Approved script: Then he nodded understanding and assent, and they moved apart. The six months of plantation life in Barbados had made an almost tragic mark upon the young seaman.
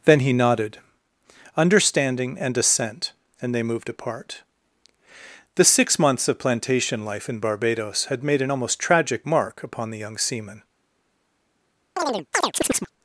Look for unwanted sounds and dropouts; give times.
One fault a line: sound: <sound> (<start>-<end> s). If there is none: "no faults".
sound: chirp (12.0-12.9 s)